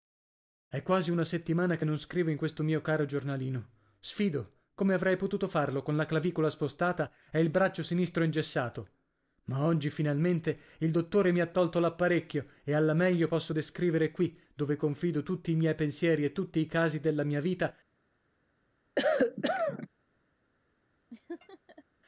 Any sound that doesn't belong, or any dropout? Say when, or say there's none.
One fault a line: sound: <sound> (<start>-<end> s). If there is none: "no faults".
sound: cough (19.0-19.9 s)
sound: laugh (21.1-21.8 s)